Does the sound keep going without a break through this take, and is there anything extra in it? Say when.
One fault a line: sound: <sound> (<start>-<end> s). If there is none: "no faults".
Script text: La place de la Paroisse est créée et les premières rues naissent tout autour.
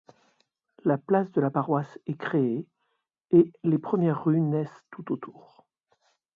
no faults